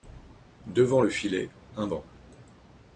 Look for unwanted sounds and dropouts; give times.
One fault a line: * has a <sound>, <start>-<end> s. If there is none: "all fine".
all fine